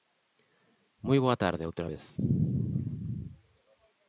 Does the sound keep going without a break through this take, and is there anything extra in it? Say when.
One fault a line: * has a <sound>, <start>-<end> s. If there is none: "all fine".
all fine